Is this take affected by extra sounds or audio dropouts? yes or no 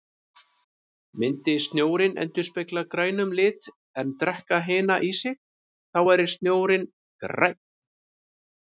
no